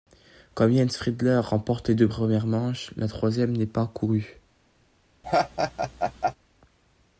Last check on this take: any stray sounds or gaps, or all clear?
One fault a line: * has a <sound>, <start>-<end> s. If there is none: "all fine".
* has a laugh, 5.2-6.3 s